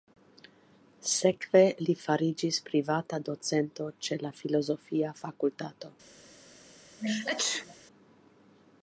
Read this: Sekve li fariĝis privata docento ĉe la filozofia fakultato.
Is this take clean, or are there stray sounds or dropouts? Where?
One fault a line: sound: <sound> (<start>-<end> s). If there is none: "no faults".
sound: sneeze (7.0-7.8 s)